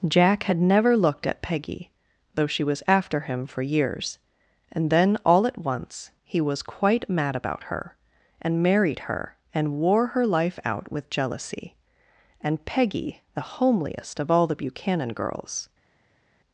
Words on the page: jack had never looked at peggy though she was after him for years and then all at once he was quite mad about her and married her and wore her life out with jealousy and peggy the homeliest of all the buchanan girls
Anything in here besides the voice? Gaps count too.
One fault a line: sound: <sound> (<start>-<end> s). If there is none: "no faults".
no faults